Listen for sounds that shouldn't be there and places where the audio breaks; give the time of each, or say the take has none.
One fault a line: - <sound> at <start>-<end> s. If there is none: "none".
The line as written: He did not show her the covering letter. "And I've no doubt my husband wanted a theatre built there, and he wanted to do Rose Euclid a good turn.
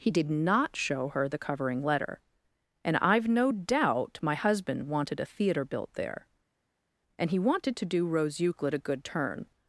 none